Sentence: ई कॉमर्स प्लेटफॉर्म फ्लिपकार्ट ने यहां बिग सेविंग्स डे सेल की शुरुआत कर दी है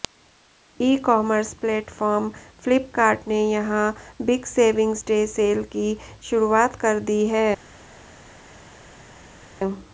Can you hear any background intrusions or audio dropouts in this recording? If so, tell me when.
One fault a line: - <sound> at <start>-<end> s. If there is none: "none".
none